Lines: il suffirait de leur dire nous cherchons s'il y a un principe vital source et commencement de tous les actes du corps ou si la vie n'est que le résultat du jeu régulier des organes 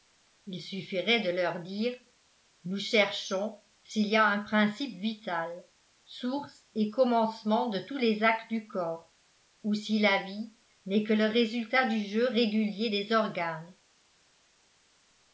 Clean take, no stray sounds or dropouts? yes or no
yes